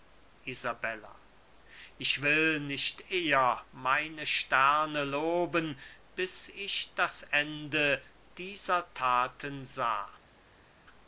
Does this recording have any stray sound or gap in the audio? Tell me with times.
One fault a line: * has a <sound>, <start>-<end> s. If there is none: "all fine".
all fine